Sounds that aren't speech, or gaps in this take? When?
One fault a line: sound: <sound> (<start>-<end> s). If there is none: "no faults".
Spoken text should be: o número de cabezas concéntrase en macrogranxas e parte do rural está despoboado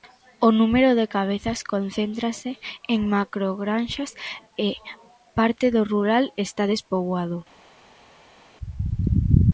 no faults